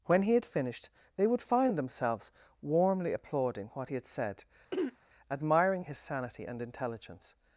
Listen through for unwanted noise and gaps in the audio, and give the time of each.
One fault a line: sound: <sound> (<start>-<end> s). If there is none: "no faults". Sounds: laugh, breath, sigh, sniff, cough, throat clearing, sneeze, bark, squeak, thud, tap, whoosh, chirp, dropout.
sound: throat clearing (4.7-5.0 s)